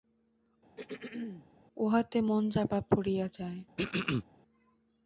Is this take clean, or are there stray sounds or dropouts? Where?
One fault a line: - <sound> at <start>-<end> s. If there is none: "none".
- throat clearing at 0.8-1.5 s
- throat clearing at 3.8-4.2 s